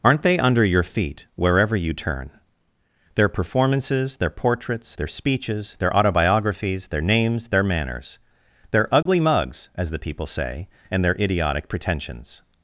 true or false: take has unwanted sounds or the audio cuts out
true